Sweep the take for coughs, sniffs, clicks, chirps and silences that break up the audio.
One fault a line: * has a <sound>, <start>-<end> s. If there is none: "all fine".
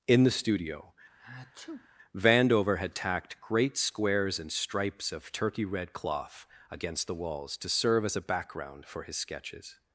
* has a sneeze, 1.2-1.9 s